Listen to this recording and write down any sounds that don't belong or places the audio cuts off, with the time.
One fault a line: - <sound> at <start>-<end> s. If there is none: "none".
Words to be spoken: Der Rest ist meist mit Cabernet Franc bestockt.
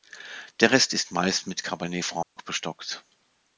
- dropout at 2.2-2.4 s